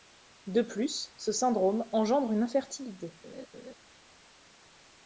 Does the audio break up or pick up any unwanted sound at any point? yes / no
yes